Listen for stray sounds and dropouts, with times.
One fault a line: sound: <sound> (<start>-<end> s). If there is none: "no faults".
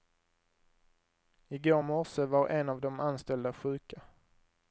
no faults